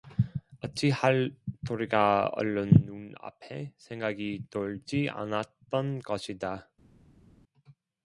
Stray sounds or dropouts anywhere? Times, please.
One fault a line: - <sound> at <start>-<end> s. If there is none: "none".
none